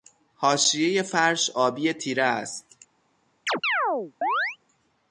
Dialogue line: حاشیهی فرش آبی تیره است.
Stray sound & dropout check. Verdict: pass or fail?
fail